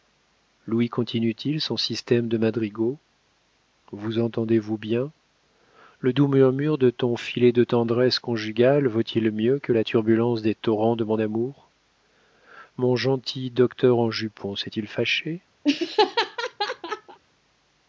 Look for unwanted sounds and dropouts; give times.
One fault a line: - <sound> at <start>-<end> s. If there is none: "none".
- laugh at 15.6-17.2 s